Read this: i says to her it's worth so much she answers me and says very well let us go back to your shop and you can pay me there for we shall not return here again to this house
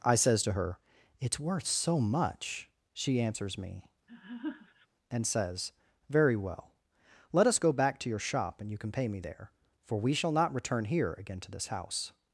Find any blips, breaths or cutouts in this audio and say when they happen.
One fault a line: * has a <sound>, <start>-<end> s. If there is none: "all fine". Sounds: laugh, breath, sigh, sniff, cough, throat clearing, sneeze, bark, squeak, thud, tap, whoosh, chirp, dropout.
* has a laugh, 4.1-4.9 s